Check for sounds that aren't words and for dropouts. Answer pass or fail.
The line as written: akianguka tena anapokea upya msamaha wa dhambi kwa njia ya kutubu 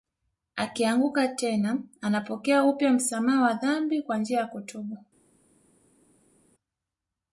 pass